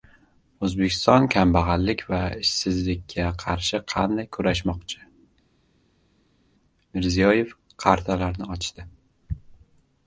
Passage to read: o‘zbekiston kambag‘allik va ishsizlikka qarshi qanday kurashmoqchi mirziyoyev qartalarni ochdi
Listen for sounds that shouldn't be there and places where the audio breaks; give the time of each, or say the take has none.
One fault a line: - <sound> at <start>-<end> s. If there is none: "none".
none